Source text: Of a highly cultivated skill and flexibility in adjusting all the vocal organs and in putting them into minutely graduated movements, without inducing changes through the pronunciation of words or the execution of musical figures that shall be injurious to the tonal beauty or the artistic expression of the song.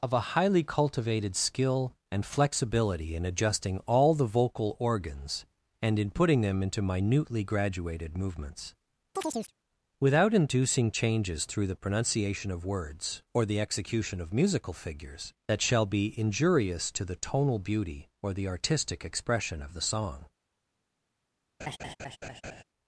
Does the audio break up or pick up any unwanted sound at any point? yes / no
yes